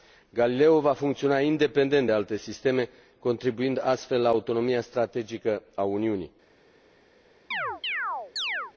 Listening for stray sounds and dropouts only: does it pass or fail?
fail